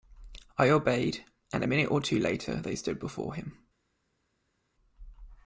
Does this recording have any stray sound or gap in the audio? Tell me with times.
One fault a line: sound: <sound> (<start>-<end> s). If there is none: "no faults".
no faults